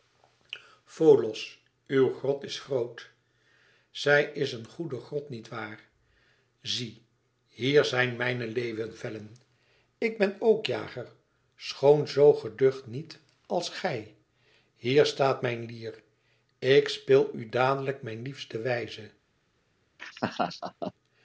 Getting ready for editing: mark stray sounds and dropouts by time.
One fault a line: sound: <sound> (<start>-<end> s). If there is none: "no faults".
sound: laugh (20.0-20.9 s)